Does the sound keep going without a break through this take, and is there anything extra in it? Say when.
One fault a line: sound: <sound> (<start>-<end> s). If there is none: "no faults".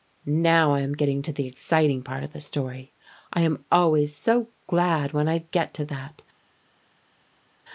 no faults